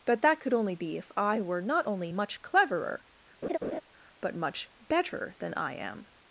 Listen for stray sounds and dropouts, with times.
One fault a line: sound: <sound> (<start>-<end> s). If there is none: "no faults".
sound: laugh (3.4-3.8 s)